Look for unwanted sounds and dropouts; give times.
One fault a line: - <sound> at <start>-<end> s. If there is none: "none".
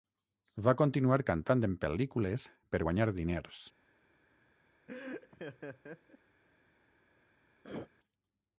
- laugh at 4.9-6.2 s
- throat clearing at 7.6-7.9 s